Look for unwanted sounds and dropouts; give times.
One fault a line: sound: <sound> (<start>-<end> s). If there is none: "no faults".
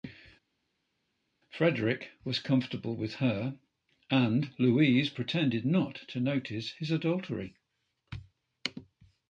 no faults